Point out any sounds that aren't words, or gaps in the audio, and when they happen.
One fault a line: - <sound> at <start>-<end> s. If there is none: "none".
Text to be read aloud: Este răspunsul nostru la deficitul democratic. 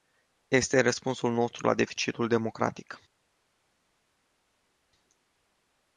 none